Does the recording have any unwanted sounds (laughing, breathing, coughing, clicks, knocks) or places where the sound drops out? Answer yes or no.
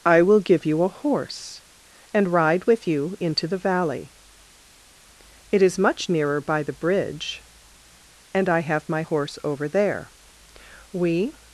no